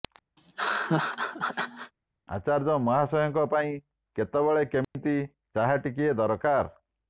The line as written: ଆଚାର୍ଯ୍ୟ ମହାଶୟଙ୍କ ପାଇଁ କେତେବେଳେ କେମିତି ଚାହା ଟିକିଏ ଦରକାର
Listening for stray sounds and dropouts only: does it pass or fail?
fail